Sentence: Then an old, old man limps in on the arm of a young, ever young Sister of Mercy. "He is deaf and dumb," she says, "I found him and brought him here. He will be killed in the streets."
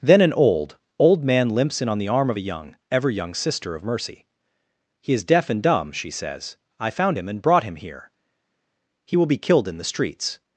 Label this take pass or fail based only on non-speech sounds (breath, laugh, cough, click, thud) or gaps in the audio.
pass